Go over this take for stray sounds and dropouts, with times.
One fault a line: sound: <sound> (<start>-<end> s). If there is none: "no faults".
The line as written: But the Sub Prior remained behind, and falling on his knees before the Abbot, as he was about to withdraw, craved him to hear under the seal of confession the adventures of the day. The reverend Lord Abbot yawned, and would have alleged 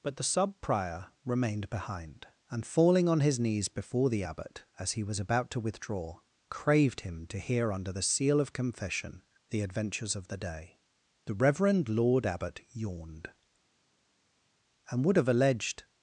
no faults